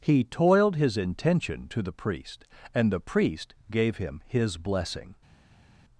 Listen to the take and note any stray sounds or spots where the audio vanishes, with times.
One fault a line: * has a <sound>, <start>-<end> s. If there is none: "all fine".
all fine